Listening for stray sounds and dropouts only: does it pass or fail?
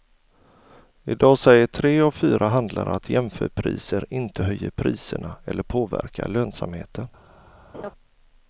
fail